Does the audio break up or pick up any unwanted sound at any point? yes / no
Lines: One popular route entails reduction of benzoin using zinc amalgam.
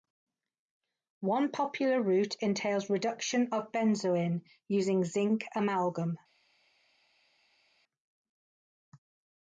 no